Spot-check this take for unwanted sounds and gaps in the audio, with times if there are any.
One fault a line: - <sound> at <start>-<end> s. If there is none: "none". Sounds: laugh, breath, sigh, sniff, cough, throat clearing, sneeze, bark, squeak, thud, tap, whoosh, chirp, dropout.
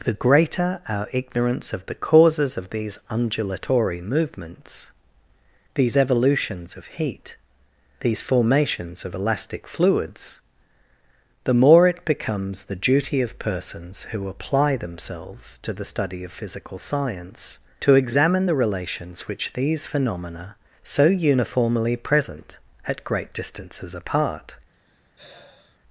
- sigh at 24.7-25.8 s